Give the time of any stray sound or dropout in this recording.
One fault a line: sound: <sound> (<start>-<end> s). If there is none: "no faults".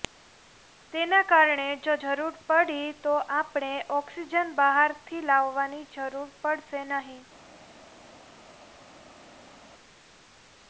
no faults